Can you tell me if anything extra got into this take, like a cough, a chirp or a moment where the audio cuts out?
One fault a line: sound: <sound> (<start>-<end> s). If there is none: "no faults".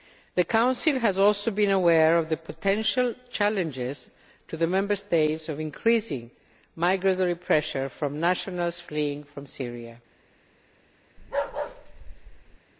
sound: bark (11.2-12.6 s)